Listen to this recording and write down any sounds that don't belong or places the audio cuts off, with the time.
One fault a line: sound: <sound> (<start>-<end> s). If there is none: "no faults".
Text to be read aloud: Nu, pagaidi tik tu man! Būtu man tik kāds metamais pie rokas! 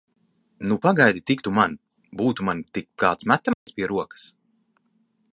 sound: dropout (3.5-3.7 s)